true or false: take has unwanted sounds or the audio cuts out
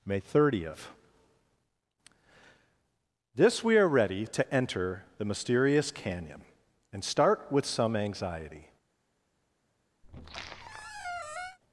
true